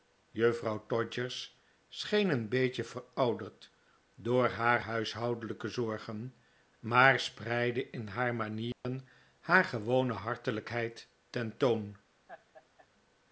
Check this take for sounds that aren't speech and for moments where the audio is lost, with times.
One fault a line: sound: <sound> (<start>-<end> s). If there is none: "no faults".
sound: dropout (8.7-8.8 s)
sound: laugh (12.3-12.9 s)